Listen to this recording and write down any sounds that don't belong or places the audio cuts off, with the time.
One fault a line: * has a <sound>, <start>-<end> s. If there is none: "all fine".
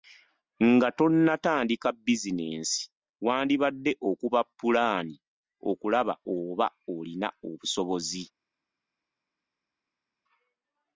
all fine